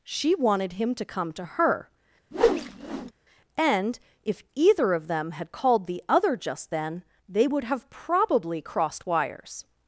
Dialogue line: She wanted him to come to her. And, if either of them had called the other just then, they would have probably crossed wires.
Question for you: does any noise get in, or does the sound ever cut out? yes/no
yes